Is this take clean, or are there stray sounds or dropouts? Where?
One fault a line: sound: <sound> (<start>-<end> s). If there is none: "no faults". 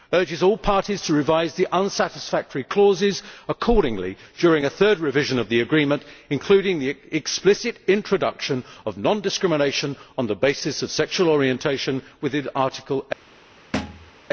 sound: thud (13.7-14.1 s)